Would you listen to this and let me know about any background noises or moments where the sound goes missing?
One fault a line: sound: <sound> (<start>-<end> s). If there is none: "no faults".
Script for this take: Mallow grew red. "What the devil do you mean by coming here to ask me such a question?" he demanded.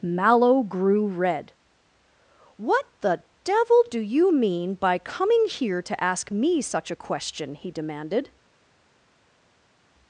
no faults